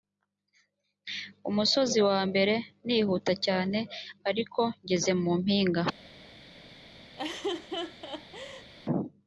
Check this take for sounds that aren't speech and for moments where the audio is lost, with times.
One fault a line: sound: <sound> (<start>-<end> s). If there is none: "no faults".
sound: laugh (7.2-8.7 s)